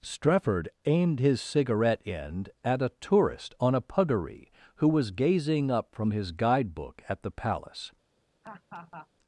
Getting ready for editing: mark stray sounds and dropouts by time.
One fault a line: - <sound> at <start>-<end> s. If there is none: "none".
- laugh at 8.4-9.1 s